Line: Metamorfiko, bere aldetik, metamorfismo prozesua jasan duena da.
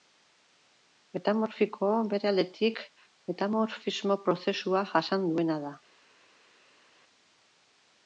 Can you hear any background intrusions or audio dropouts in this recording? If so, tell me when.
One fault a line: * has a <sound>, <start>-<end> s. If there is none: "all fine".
all fine